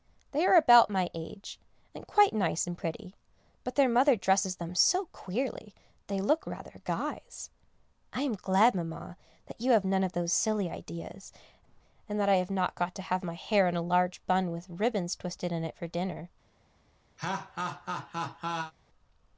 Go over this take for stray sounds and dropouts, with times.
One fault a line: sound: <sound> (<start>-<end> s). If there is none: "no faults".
sound: laugh (17.2-18.7 s)